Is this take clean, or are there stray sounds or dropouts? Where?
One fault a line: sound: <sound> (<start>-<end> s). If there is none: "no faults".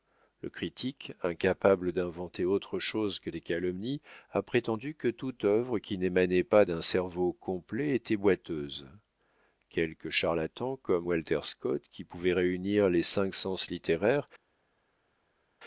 no faults